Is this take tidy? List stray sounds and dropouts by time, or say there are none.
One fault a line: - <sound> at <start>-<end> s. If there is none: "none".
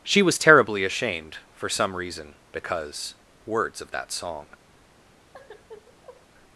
- sigh at 5.3-6.3 s